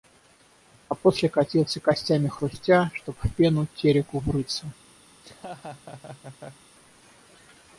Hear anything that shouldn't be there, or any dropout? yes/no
yes